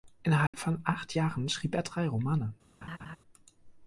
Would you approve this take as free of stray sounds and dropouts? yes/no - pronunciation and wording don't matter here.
no